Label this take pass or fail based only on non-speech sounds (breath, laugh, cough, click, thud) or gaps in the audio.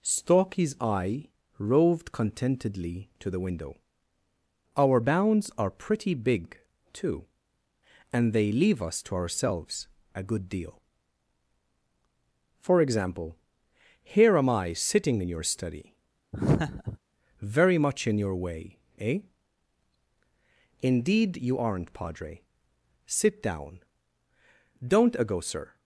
fail